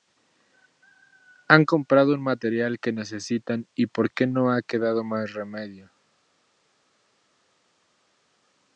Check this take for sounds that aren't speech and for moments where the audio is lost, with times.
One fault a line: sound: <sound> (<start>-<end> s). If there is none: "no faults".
no faults